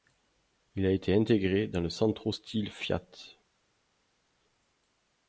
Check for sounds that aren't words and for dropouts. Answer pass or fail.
pass